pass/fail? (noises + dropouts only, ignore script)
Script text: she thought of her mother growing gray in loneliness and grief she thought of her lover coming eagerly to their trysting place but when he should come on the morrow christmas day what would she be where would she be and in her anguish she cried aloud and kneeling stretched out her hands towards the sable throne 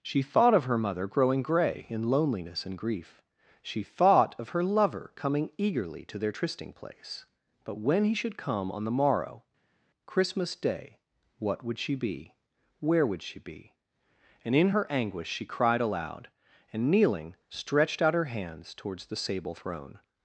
pass